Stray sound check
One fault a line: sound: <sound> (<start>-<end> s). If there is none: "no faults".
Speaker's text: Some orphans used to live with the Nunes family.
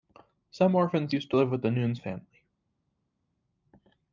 no faults